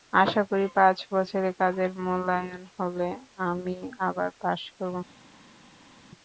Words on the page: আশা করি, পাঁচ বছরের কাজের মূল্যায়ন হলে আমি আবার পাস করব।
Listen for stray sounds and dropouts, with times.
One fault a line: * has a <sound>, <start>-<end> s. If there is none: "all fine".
all fine